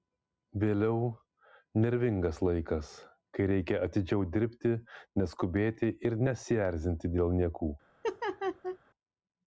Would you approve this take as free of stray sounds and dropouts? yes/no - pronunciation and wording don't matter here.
no